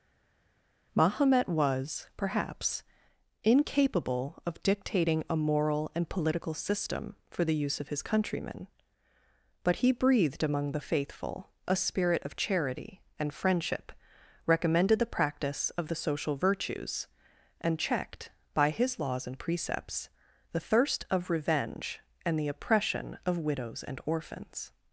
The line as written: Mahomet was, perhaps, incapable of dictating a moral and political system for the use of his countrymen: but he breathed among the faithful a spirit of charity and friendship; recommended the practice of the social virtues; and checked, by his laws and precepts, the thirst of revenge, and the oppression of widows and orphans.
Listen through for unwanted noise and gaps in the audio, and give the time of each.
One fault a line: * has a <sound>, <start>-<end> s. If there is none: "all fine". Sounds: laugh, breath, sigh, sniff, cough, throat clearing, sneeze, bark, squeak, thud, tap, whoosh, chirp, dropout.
all fine